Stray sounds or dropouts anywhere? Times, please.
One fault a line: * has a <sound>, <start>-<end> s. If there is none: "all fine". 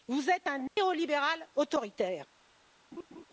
* has a dropout, 0.7-0.8 s
* has a laugh, 2.9-3.3 s